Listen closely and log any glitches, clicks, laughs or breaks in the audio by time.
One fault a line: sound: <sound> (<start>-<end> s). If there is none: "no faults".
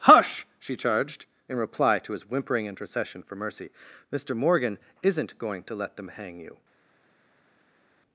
no faults